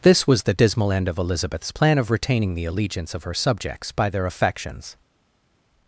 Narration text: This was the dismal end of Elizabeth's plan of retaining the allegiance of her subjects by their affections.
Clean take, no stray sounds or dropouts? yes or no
yes